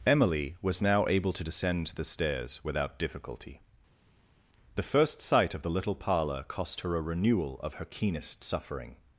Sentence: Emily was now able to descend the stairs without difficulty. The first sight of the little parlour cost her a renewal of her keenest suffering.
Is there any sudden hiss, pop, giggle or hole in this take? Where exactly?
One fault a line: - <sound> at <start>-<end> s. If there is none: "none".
none